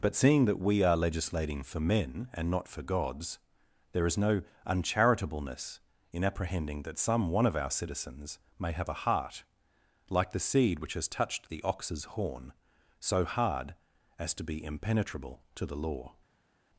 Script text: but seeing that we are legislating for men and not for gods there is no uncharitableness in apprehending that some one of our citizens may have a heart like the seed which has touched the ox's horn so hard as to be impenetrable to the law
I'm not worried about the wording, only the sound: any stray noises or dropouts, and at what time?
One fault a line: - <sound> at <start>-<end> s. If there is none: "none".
none